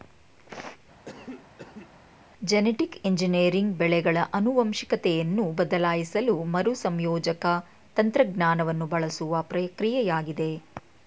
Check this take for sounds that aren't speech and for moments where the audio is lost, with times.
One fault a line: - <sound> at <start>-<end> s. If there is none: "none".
- cough at 1.0-1.9 s